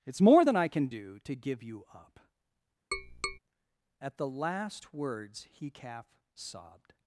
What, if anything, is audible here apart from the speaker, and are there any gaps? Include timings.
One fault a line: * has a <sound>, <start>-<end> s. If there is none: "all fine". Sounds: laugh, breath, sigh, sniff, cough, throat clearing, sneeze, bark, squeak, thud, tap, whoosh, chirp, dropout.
* has a tap, 2.9-3.4 s